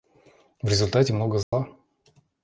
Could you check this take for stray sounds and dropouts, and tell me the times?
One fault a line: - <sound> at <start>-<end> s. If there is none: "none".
- dropout at 1.4-1.5 s